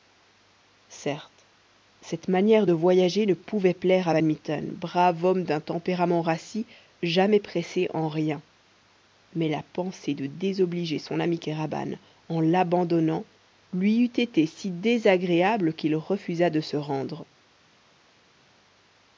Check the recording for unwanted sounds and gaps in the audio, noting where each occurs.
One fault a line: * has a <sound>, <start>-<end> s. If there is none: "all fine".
all fine